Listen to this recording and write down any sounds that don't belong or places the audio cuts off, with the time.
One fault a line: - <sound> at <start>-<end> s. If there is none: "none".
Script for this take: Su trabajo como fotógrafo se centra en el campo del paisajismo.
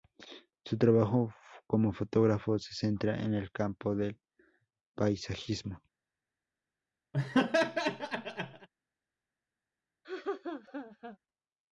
- laugh at 7.1-8.7 s
- laugh at 10.0-11.2 s